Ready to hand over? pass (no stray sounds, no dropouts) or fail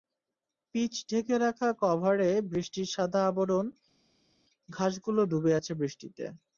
pass